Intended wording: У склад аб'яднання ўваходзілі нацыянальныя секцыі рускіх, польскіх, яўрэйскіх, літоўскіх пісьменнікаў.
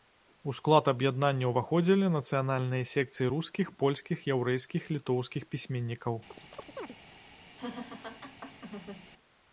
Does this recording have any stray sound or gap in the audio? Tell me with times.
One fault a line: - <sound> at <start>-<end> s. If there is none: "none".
- chirp at 6.3-7.0 s
- laugh at 7.6-9.1 s